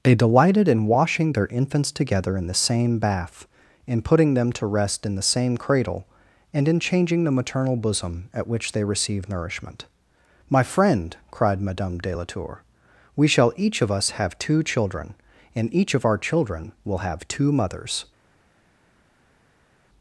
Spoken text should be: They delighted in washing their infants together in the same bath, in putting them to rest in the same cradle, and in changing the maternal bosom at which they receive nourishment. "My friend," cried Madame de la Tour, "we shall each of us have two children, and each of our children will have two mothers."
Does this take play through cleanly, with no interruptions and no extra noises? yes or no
yes